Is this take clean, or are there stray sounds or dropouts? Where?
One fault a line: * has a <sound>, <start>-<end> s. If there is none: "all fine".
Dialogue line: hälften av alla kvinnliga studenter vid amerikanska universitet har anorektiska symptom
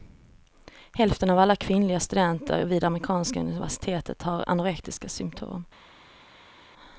all fine